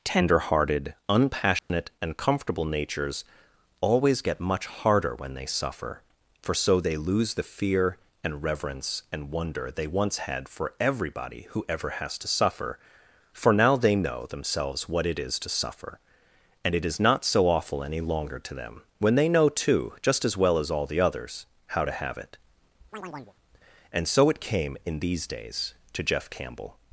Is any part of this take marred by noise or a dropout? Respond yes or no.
yes